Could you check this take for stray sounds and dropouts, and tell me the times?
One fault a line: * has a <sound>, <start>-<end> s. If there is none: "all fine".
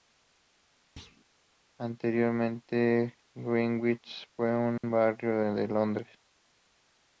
* has a thud, 1.0-1.2 s
* has a dropout, 4.8-4.8 s